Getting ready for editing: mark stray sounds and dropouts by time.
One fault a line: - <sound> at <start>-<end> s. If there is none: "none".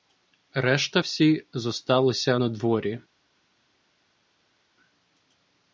none